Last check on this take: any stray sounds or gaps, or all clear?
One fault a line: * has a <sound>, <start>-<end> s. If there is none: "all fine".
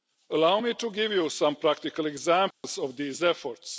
* has a dropout, 2.5-2.6 s